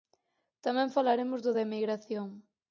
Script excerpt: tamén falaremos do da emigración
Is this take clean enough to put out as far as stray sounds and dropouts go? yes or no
yes